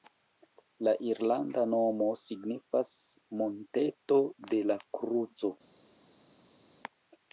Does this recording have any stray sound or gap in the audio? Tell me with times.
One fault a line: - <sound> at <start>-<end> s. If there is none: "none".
none